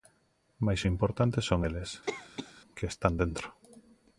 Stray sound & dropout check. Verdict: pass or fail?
fail